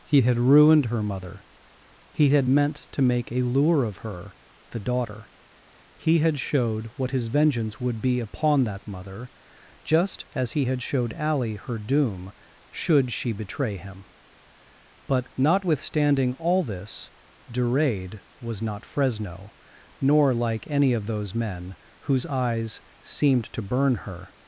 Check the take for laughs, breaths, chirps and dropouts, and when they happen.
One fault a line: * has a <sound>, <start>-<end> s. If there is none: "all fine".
all fine